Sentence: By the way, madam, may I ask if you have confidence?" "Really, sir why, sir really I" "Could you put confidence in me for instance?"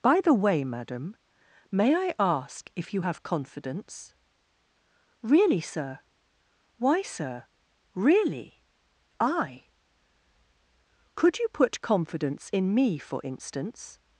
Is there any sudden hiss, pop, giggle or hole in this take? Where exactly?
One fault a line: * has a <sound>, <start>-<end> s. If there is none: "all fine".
all fine